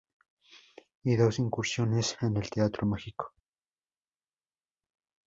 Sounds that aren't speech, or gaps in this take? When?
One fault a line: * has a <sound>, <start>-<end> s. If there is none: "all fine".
all fine